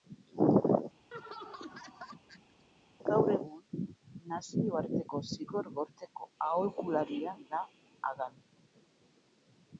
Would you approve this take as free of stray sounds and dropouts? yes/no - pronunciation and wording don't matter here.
no